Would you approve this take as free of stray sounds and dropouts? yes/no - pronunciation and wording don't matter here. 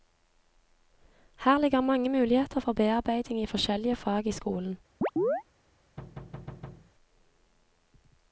no